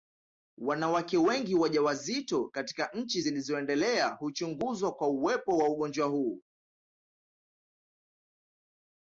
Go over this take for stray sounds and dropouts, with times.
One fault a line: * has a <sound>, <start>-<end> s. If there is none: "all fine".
all fine